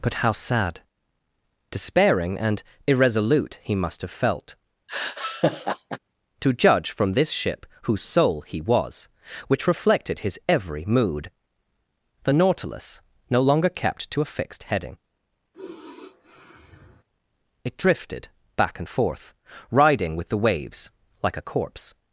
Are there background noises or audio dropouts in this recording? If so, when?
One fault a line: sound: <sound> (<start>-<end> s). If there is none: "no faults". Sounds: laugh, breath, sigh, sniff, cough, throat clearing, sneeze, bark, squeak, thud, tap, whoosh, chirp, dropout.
sound: laugh (4.9-6.0 s)
sound: sigh (15.5-17.0 s)